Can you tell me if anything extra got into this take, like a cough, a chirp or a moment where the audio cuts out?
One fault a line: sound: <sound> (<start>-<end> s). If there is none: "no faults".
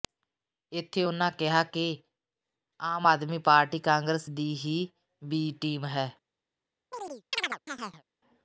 sound: chirp (6.9-8.0 s)